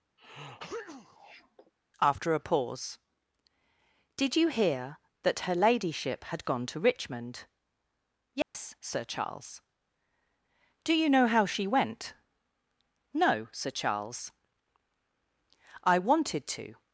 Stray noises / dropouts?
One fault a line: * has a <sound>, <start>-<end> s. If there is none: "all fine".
* has a sneeze, 0.2-1.7 s
* has a dropout, 8.4-8.5 s